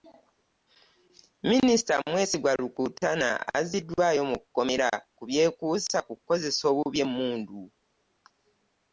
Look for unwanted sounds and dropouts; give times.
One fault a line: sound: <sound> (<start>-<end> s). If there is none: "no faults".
no faults